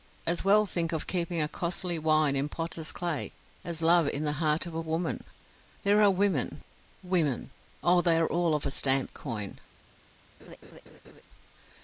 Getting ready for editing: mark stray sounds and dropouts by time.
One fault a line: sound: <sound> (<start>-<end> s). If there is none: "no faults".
sound: laugh (10.4-11.2 s)